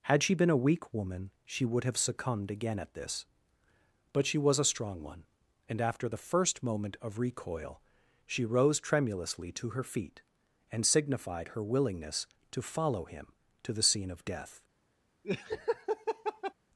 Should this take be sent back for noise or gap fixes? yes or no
yes